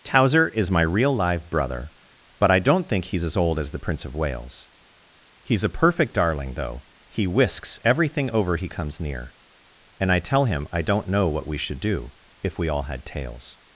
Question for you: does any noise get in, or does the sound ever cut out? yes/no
no